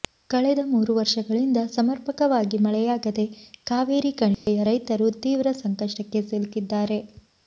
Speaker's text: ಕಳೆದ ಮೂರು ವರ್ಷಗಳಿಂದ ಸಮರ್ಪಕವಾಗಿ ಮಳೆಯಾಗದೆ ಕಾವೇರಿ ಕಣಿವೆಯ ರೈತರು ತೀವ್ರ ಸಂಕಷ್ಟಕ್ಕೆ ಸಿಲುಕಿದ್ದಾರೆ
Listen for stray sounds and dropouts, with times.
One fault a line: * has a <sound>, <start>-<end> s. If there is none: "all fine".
* has a dropout, 4.3-4.5 s